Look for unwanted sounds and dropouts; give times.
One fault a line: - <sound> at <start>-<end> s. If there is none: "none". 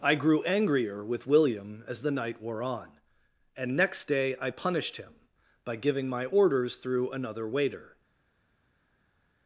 none